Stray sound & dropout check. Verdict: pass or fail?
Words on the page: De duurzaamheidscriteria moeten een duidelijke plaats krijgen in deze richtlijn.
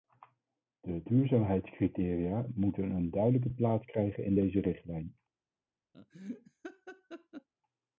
fail